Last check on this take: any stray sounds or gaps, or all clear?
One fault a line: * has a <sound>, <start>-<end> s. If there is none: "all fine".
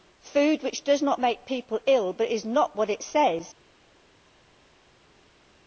all fine